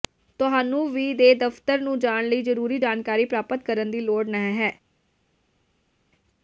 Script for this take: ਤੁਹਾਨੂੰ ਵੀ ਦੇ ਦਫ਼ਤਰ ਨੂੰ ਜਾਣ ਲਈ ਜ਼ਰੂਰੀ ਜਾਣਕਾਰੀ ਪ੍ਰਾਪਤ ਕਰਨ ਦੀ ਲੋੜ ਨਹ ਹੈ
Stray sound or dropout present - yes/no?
no